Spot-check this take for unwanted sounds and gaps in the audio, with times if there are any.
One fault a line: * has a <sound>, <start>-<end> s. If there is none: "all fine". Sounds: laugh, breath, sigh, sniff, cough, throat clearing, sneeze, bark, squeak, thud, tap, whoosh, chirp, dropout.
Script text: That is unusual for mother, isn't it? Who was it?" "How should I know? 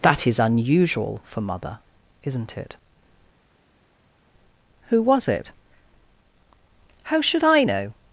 all fine